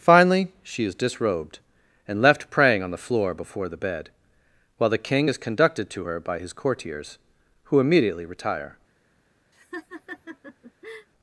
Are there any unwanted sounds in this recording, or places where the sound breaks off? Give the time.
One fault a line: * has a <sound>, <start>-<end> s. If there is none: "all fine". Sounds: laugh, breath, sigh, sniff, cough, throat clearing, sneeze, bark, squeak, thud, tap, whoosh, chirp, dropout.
* has a laugh, 9.5-11.1 s